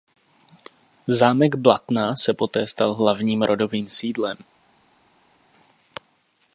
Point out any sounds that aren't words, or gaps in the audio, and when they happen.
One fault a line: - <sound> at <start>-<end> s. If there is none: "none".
none